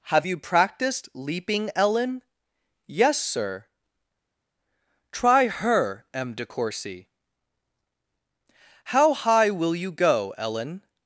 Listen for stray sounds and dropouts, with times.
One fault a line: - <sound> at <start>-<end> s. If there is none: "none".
none